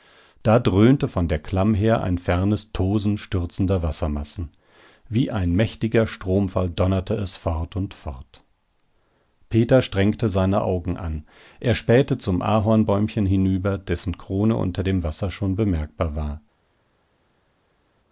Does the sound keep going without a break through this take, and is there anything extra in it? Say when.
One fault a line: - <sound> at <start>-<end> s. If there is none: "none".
none